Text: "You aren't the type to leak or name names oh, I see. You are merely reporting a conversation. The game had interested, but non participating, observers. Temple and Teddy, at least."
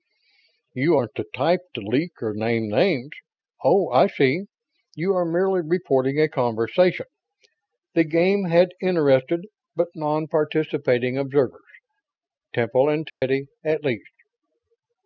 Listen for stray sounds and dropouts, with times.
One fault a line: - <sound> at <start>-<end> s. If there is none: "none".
- dropout at 13.1-13.2 s